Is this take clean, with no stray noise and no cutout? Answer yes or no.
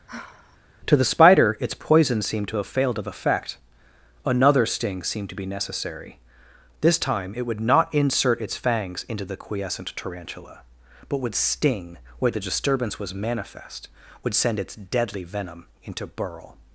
no